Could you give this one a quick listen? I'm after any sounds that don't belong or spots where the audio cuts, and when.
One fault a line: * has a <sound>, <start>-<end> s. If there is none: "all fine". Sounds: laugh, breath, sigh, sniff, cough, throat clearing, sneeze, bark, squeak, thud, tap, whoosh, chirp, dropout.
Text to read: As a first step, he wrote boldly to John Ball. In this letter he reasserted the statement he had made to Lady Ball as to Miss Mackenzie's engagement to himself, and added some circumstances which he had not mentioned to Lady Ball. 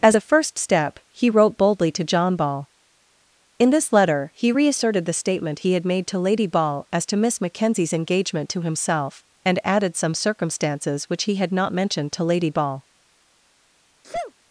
* has a sneeze, 14.0-14.3 s